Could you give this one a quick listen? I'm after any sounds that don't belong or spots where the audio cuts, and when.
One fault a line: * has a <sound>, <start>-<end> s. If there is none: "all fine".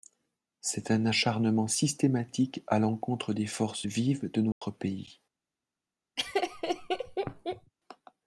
* has a dropout, 4.5-4.6 s
* has a laugh, 6.2-7.7 s